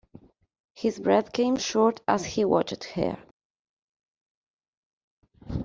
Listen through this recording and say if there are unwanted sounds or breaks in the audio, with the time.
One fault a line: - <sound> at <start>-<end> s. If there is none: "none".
none